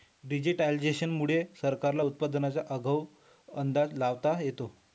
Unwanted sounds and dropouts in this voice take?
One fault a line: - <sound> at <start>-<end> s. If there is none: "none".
none